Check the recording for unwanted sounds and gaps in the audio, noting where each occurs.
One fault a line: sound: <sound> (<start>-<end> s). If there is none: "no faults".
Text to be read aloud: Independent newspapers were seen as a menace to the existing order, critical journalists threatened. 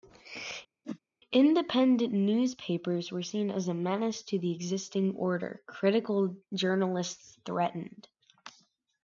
sound: whoosh (0.8-1.0 s)